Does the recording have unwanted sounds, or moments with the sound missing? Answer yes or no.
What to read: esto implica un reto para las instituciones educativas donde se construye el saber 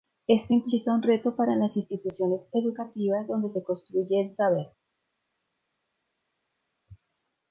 no